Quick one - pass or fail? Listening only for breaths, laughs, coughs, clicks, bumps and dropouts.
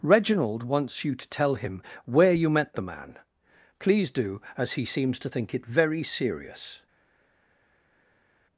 pass